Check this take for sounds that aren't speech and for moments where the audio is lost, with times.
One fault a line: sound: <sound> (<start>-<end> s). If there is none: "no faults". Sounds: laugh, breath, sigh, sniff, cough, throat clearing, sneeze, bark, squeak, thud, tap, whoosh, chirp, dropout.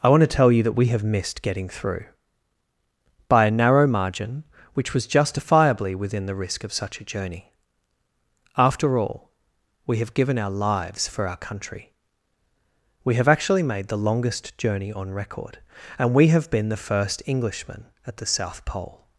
no faults